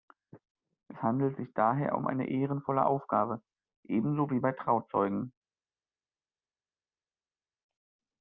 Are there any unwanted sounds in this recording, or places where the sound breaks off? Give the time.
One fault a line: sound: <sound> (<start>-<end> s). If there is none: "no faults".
no faults